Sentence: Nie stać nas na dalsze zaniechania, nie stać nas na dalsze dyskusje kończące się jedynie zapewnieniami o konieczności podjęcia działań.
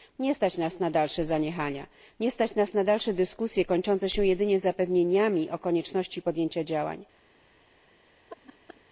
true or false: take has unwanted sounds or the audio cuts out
true